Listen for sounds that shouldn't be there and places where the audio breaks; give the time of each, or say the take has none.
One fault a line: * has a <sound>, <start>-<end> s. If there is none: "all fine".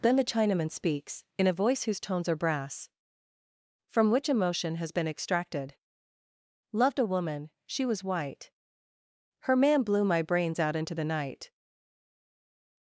all fine